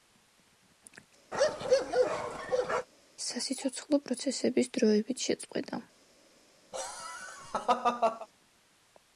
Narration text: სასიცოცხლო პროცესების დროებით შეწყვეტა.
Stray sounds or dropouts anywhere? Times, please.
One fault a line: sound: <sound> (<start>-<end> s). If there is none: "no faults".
sound: bark (1.3-2.9 s)
sound: laugh (6.7-8.3 s)